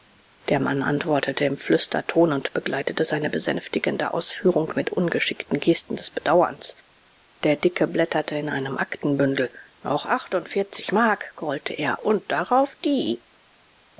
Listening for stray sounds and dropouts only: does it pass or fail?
pass